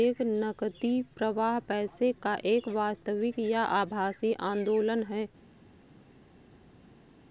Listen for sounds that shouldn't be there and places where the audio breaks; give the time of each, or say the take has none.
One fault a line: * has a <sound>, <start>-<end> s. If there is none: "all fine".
all fine